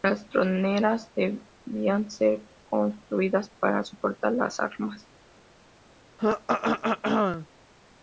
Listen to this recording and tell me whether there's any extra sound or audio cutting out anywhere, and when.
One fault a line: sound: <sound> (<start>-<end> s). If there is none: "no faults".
sound: throat clearing (6.2-7.5 s)